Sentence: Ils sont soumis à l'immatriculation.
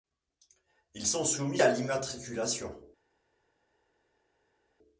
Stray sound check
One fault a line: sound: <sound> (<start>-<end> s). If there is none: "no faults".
no faults